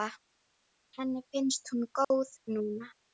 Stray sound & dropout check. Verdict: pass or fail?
fail